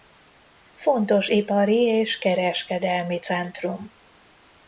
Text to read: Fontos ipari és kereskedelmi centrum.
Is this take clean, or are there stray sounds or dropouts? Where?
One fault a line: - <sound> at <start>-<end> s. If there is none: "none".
none